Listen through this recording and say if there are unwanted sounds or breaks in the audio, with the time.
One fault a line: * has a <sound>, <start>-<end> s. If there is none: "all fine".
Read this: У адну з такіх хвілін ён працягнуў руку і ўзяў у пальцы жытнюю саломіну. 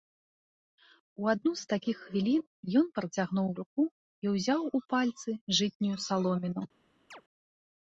* has a chirp, 7.1-7.2 s